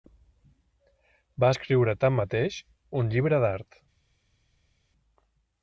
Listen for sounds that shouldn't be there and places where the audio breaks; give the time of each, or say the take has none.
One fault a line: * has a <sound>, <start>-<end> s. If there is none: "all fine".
all fine